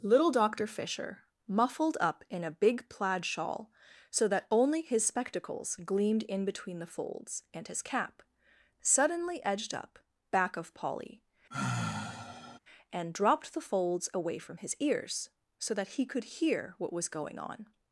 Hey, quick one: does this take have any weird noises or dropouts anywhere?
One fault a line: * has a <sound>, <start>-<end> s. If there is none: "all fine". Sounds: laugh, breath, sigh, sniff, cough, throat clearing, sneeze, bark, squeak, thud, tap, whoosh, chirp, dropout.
* has a sigh, 11.5-12.6 s